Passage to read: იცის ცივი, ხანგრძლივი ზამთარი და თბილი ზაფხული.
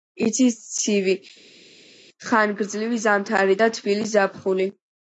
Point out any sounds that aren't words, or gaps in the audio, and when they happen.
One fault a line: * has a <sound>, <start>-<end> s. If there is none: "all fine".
all fine